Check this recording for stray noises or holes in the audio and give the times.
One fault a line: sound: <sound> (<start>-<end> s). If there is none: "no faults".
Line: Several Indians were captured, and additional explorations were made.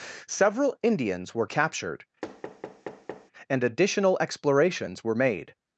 sound: thud (2.2-3.3 s)